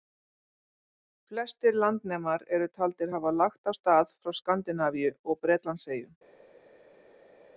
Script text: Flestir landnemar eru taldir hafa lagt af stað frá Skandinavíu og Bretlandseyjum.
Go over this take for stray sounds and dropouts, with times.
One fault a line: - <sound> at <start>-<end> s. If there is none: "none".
none